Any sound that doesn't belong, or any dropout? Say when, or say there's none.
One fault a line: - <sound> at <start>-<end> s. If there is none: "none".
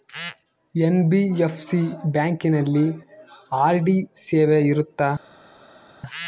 none